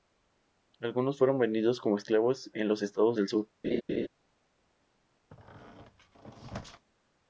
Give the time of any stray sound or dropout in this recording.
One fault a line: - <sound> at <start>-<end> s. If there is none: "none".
- laugh at 3.6-4.1 s
- squeak at 5.3-6.9 s